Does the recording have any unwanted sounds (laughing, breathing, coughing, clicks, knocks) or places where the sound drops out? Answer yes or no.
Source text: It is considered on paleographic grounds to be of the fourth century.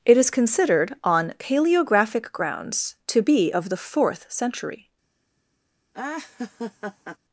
yes